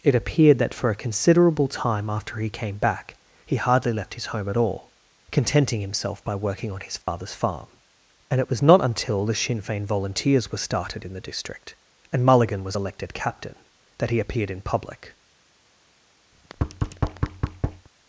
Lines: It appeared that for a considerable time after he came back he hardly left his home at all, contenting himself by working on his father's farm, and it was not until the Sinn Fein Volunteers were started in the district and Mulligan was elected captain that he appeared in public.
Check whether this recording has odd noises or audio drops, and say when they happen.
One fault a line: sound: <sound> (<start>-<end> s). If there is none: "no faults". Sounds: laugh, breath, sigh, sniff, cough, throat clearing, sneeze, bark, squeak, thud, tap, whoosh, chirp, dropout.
sound: dropout (7.0-7.1 s)
sound: thud (16.3-17.9 s)